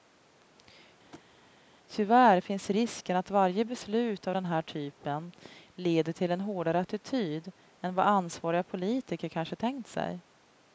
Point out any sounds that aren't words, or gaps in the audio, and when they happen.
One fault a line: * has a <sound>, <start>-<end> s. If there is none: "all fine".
* has a thud, 1.1-1.3 s